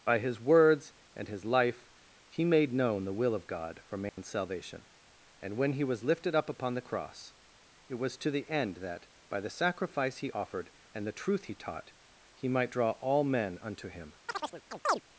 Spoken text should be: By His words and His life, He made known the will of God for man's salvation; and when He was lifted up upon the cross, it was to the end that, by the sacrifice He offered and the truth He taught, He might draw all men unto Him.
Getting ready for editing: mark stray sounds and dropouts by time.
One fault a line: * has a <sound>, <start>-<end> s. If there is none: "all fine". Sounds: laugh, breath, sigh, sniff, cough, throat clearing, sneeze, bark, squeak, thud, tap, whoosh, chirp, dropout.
* has a dropout, 4.1-4.2 s
* has a chirp, 14.3-15.0 s